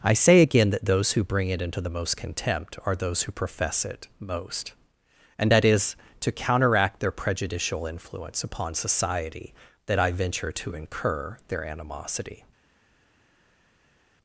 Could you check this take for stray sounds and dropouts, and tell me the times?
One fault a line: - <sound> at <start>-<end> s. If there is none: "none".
none